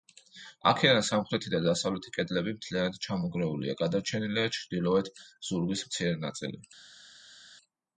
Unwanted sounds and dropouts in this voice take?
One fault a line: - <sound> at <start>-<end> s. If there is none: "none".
none